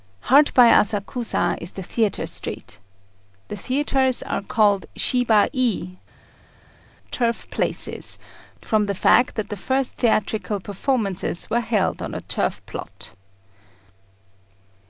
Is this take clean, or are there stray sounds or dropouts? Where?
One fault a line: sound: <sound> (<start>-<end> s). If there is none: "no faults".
no faults